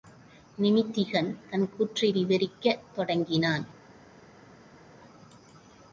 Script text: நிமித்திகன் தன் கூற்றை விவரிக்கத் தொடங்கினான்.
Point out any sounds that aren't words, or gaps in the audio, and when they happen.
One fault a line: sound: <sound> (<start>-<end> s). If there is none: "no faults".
no faults